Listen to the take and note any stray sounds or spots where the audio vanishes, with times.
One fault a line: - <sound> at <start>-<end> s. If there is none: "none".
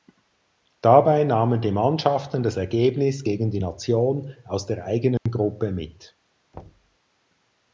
- dropout at 5.2-5.3 s
- thud at 6.5-7.0 s